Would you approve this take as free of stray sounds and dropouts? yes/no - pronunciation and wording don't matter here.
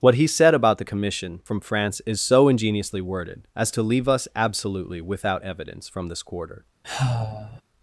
no